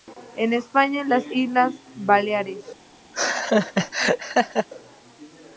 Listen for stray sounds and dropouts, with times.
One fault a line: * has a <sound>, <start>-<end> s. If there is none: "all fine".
* has a laugh, 3.1-4.7 s